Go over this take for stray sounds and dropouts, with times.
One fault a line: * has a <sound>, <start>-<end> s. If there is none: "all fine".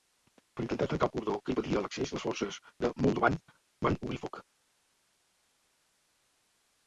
all fine